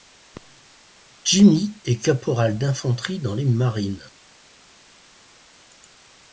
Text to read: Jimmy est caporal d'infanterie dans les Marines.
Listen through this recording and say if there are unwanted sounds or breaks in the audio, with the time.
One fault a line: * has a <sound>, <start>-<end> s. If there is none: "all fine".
all fine